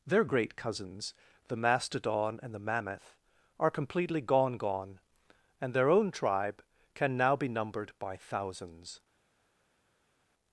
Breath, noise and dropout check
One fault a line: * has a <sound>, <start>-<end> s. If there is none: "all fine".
all fine